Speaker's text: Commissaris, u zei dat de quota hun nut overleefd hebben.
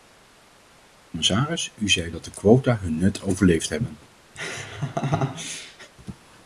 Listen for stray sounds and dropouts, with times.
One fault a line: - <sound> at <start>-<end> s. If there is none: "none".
- laugh at 4.4-5.9 s